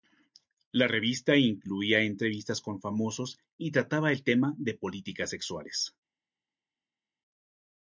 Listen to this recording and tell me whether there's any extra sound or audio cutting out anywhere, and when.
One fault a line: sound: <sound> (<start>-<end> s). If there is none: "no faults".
no faults